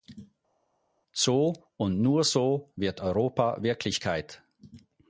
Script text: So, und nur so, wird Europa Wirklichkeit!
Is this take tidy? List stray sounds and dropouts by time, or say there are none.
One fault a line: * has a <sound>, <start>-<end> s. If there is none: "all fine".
all fine